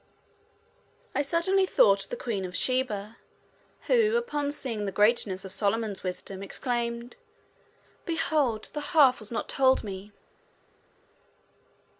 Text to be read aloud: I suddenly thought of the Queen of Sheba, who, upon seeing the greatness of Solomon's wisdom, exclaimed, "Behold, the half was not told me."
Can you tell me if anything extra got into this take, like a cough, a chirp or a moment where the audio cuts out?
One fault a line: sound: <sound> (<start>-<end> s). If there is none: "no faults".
no faults